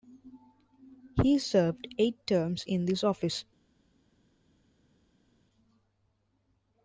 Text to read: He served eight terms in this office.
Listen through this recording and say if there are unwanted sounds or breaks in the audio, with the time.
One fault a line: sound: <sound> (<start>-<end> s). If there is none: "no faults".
no faults